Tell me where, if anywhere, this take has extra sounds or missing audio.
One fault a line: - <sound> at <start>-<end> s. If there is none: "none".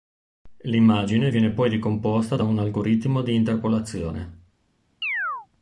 - chirp at 5.0-5.5 s